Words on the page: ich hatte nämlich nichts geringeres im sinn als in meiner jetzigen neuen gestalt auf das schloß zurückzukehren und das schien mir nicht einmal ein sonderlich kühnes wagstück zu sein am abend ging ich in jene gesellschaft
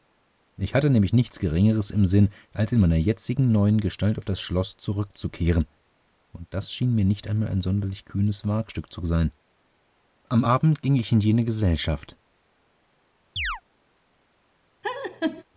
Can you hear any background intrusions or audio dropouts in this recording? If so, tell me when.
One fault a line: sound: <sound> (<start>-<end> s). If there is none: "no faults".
sound: chirp (13.4-13.6 s)
sound: laugh (14.8-15.4 s)